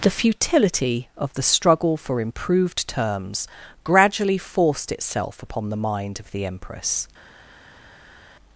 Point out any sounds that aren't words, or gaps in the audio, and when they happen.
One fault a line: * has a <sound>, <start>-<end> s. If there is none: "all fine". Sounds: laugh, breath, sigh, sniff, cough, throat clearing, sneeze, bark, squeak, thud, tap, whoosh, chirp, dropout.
all fine